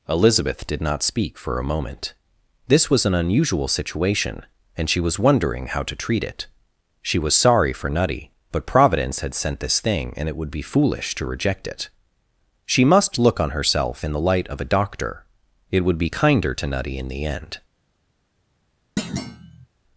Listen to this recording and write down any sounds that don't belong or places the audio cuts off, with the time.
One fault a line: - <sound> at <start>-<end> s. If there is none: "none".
- thud at 19.0-19.7 s